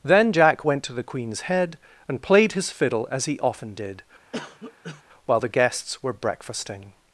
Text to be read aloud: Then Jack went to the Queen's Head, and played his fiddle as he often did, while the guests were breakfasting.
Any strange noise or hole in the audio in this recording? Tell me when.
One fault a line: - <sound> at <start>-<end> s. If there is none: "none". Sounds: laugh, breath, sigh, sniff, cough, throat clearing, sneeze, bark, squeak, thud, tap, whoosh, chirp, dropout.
- cough at 4.3-5.0 s